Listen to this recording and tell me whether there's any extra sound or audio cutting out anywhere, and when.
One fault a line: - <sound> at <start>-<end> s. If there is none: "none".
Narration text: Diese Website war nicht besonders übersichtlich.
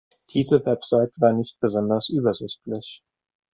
none